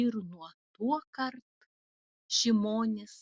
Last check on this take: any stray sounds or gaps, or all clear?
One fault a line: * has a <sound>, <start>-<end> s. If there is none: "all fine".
all fine